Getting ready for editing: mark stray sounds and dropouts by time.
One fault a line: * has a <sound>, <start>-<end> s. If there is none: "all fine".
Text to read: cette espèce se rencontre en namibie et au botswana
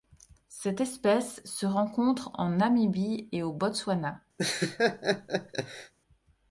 * has a laugh, 4.4-5.9 s